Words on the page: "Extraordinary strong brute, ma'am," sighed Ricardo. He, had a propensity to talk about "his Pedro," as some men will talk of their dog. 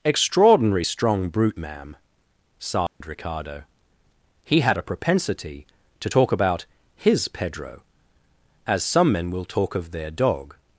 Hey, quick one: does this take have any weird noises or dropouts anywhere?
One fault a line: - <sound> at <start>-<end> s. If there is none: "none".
- dropout at 2.9-3.0 s